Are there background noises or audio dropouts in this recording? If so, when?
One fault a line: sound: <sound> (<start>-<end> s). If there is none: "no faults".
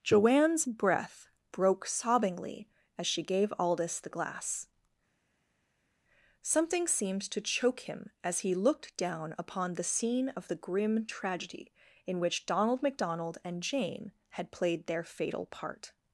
no faults